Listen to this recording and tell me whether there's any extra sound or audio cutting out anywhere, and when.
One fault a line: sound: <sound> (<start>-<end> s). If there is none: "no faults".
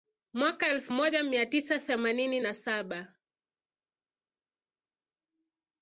no faults